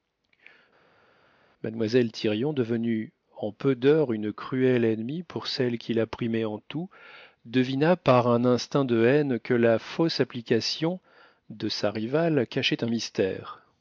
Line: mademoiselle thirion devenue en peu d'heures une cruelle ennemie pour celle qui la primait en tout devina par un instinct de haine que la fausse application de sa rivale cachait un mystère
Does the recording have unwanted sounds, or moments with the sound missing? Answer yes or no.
no